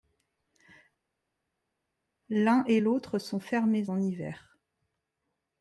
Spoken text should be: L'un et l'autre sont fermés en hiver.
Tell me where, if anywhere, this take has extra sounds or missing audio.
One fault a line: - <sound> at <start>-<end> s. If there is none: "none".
none